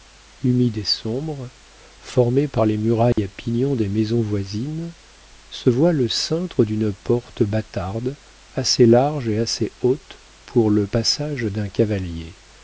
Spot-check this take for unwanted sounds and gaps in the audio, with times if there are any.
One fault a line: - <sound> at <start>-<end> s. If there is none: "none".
- dropout at 3.1-3.2 s